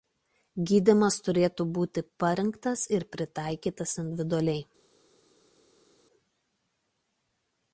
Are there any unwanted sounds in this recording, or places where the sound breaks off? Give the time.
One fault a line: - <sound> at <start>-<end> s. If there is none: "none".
none